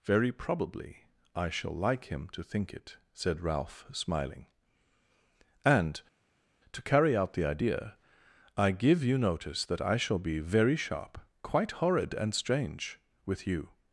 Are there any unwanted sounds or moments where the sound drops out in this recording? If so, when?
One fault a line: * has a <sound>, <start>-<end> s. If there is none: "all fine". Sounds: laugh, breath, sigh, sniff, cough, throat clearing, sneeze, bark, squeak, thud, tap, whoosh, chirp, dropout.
all fine